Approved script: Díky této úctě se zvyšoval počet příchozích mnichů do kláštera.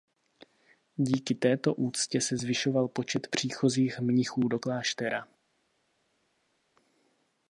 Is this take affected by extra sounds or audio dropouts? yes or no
no